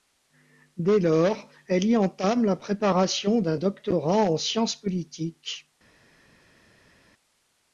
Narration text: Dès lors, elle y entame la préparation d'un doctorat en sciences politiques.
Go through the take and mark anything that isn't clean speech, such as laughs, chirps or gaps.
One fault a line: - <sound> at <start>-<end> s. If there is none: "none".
none